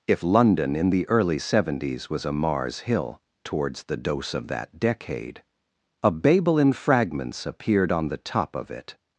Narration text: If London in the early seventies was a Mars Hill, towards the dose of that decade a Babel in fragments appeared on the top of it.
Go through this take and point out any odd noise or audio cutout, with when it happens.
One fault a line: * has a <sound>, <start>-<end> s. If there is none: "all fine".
all fine